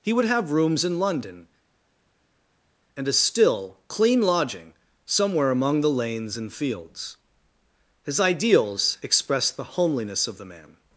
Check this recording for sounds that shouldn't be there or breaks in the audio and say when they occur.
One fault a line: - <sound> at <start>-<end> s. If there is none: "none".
none